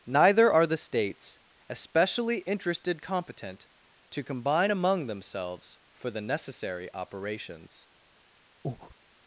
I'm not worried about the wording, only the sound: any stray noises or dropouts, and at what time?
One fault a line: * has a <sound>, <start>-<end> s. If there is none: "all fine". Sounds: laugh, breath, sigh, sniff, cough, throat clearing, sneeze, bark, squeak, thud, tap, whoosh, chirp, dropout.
* has a breath, 8.6-9.0 s